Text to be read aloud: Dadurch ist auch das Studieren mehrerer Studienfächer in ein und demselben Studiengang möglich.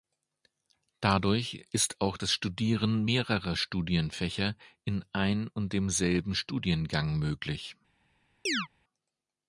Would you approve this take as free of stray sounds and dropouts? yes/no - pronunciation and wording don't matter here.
no